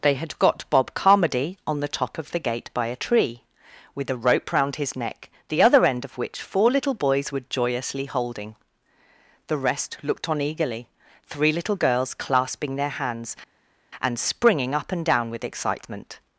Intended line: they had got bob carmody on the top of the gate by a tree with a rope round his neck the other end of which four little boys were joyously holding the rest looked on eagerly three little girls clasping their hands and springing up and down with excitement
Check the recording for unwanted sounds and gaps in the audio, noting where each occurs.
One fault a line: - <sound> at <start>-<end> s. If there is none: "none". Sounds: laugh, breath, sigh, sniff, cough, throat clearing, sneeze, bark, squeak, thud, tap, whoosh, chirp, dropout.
none